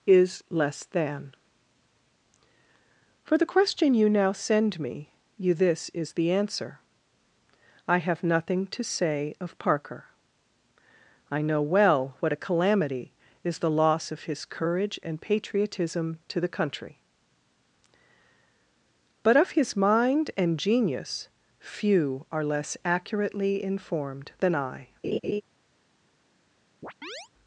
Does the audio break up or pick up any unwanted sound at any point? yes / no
yes